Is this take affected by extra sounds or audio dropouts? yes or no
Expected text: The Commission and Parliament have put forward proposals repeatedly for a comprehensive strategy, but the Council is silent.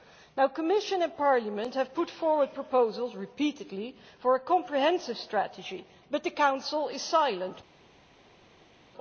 no